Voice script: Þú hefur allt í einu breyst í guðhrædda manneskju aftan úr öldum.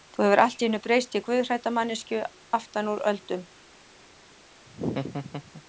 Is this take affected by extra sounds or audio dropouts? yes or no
yes